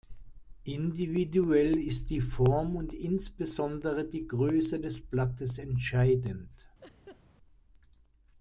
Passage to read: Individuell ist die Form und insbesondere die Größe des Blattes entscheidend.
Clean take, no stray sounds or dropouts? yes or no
no